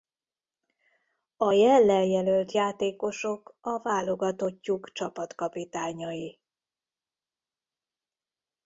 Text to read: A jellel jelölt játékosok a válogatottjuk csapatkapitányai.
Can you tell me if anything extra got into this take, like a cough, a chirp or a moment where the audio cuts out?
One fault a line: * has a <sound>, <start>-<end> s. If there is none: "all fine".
all fine